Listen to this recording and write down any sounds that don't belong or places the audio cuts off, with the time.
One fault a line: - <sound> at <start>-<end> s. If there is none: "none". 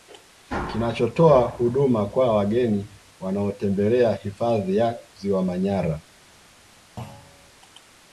- thud at 7.0-7.5 s